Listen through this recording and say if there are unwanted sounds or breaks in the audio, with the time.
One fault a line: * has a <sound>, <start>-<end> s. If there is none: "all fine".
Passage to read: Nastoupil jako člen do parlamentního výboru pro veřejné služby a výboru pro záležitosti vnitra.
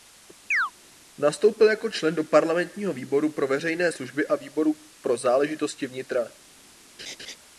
* has a chirp, 0.5-0.7 s
* has a laugh, 7.0-7.4 s